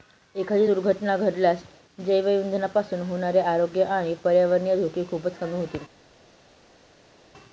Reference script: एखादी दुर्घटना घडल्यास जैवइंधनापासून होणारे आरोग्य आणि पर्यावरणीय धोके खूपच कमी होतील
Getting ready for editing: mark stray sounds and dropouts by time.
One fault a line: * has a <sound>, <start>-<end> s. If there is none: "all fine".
all fine